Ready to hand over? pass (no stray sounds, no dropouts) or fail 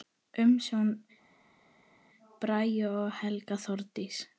pass